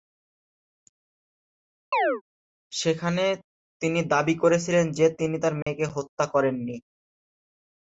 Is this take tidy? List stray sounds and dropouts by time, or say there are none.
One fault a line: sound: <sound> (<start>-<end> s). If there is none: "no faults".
sound: chirp (1.9-2.2 s)
sound: dropout (5.6-5.7 s)